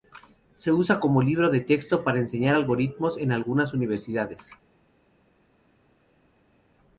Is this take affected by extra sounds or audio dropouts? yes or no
no